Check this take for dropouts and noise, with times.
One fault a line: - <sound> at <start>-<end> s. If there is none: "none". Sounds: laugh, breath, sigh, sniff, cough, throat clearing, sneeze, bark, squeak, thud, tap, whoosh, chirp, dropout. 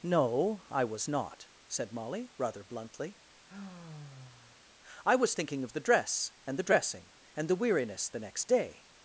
- sigh at 3.5-4.7 s